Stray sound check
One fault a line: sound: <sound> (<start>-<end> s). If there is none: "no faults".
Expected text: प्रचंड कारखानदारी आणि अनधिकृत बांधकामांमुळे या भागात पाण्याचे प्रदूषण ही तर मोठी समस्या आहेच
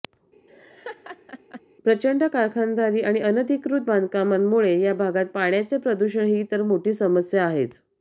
sound: laugh (0.5-1.6 s)